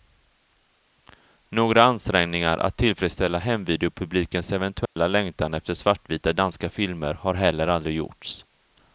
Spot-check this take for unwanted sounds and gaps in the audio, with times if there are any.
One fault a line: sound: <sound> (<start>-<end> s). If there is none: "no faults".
sound: dropout (4.9-5.0 s)